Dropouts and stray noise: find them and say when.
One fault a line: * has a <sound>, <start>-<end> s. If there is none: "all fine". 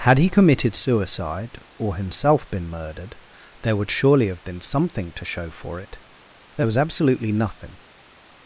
all fine